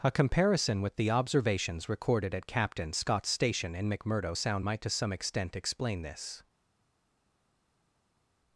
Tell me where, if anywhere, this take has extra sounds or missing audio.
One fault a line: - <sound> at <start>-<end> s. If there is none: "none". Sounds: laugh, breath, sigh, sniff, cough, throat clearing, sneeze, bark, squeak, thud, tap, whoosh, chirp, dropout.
none